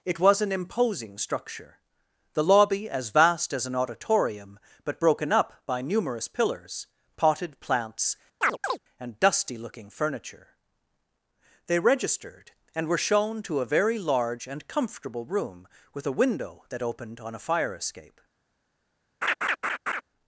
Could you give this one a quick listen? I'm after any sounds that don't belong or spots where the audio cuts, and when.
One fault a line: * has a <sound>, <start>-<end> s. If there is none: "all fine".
* has a chirp, 8.4-8.8 s
* has a laugh, 19.2-20.0 s